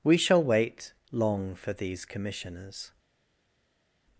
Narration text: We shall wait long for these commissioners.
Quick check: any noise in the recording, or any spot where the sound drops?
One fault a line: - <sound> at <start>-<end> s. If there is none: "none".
none